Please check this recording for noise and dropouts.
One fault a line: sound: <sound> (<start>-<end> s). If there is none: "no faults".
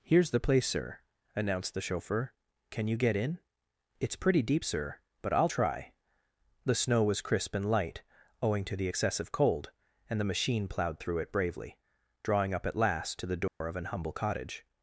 sound: dropout (13.5-13.6 s)